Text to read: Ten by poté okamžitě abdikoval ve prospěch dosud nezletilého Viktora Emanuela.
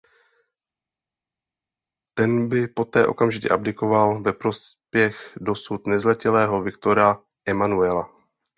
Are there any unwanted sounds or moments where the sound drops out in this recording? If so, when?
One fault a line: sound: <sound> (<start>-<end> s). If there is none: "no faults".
no faults